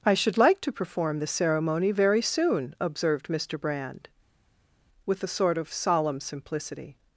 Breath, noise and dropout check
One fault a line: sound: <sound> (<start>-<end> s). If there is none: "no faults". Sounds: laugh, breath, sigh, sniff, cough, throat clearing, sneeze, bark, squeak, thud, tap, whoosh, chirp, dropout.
no faults